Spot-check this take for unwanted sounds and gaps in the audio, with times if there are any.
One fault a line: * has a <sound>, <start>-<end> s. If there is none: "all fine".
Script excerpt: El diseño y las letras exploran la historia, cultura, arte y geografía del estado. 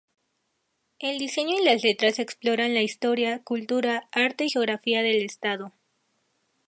all fine